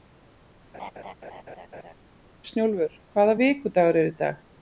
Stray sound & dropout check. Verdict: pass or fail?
fail